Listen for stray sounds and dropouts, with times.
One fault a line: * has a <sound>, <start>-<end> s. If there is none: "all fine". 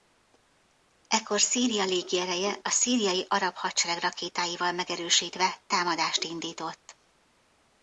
all fine